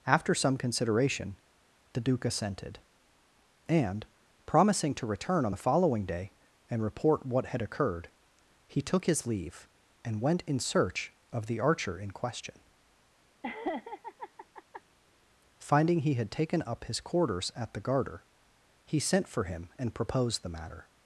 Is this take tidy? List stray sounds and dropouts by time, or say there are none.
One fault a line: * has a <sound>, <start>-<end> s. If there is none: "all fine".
* has a laugh, 13.4-14.8 s